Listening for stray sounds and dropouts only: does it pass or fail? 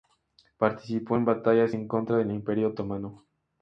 pass